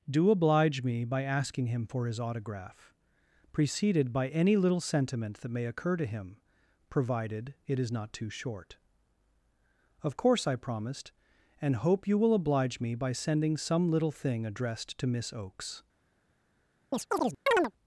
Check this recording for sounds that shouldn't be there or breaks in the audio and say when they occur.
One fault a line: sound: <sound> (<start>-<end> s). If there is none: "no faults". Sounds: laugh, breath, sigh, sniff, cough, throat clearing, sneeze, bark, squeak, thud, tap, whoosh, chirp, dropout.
sound: chirp (16.9-17.7 s)